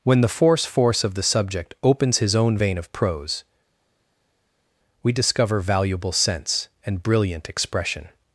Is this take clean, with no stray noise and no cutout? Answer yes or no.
yes